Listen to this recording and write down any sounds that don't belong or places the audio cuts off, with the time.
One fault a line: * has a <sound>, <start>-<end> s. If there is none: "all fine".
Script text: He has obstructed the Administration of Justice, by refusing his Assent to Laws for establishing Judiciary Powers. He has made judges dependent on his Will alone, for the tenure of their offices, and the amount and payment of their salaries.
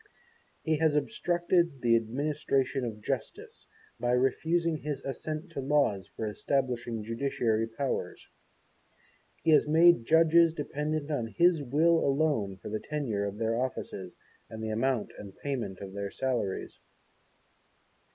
all fine